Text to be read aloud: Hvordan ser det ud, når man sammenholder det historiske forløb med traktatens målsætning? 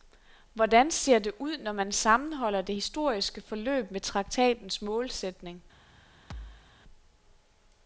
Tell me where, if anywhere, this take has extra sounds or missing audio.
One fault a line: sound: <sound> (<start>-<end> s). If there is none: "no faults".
sound: thud (6.3-6.7 s)